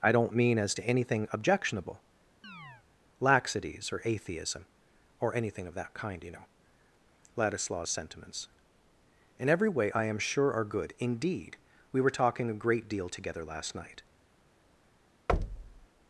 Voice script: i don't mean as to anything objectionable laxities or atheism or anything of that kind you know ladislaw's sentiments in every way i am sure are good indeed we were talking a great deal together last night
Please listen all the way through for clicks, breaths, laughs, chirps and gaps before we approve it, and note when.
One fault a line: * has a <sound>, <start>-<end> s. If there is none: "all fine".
* has a chirp, 2.4-2.9 s
* has a thud, 15.3-15.9 s